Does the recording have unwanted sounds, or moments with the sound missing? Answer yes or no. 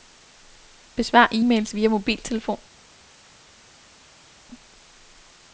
no